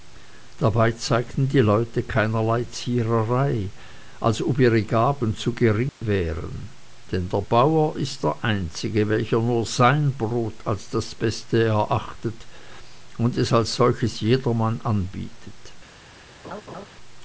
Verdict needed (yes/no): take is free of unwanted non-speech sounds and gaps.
no